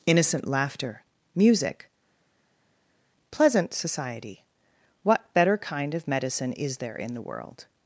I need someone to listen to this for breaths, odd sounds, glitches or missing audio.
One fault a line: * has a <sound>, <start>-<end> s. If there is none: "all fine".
all fine